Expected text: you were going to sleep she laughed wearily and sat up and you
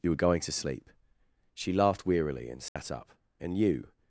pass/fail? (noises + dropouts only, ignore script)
fail